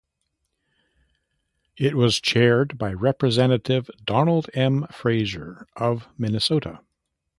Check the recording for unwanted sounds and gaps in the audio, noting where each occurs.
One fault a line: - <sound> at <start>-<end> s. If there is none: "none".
none